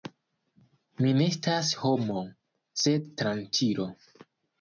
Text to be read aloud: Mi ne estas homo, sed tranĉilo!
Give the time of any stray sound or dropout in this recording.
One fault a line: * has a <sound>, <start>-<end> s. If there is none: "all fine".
all fine